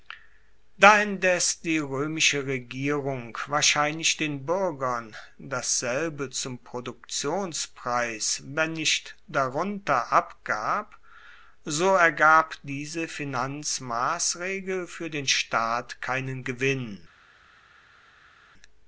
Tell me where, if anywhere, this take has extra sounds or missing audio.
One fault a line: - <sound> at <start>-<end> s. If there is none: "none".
none